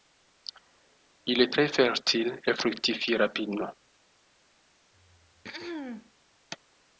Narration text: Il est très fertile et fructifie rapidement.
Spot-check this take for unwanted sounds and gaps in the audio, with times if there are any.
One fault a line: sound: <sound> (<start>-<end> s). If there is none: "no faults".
sound: throat clearing (4.9-6.1 s)